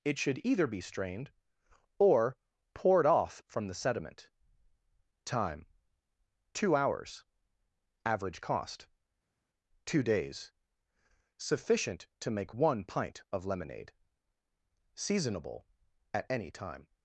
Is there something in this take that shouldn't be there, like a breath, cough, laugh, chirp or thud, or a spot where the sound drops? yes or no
no